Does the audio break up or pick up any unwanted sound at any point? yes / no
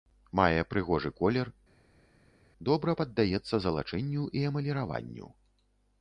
no